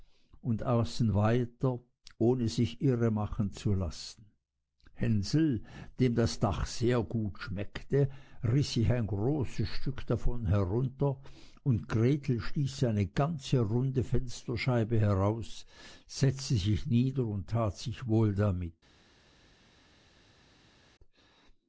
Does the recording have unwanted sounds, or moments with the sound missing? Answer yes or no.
no